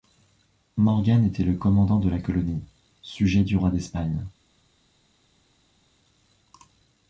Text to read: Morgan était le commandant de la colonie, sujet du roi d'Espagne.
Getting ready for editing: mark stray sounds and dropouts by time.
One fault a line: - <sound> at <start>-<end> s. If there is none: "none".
none